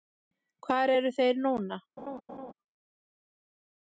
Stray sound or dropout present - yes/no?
yes